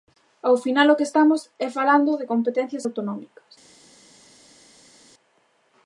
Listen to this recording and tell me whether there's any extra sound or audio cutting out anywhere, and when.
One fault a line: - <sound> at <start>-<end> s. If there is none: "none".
none